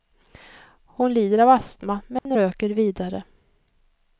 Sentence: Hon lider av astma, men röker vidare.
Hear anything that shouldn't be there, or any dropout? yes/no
yes